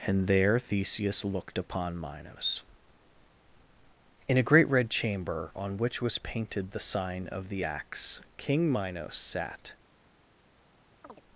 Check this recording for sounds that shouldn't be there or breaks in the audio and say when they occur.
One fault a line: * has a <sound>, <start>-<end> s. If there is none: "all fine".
* has a chirp, 11.0-11.2 s